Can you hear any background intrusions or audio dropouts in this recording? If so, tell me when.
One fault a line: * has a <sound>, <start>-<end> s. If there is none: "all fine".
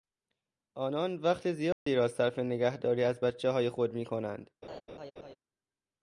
* has a dropout, 1.7-1.9 s
* has a laugh, 4.6-5.4 s